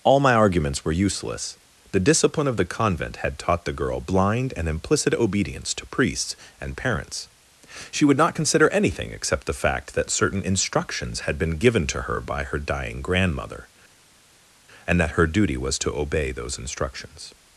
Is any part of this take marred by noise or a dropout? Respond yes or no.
no